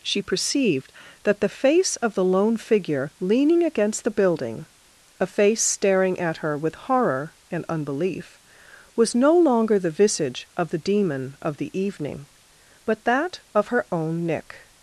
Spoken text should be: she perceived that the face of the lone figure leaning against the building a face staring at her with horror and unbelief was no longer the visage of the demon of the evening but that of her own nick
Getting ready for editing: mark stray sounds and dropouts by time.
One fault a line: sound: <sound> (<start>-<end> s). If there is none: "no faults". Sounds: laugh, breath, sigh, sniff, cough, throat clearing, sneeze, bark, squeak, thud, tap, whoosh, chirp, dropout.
no faults